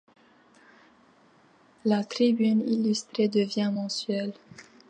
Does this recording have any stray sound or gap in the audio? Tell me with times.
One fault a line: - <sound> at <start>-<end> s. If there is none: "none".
none